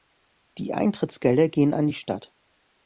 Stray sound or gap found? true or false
false